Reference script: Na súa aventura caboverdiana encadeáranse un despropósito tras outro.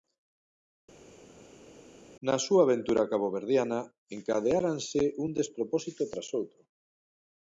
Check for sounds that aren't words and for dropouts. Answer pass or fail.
pass